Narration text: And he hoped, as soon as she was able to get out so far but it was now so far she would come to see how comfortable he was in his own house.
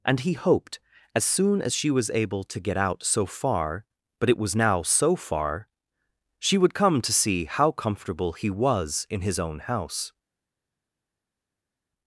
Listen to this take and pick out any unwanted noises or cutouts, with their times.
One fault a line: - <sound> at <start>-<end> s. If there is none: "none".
none